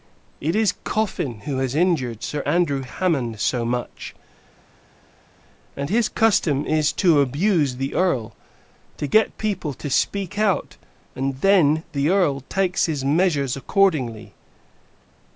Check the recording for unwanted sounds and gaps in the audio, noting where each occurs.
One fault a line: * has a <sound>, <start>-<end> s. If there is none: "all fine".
all fine